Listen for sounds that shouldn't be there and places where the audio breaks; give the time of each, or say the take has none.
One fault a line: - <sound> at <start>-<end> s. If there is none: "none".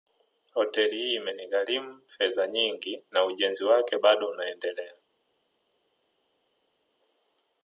none